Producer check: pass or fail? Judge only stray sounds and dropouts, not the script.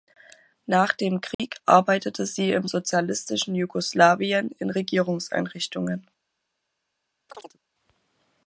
fail